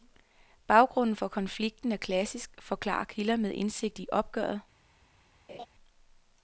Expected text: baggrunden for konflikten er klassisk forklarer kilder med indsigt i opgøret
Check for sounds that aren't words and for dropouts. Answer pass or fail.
fail